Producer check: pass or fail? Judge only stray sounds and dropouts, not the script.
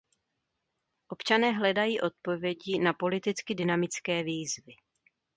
pass